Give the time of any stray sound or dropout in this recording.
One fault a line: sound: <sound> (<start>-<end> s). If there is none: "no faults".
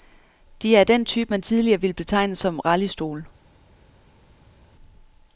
no faults